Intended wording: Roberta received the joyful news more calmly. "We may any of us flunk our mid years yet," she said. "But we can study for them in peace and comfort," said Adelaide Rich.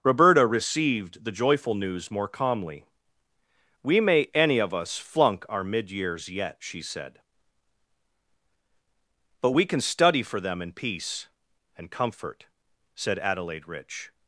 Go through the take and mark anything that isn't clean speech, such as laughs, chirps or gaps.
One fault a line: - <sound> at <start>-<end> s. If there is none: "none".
none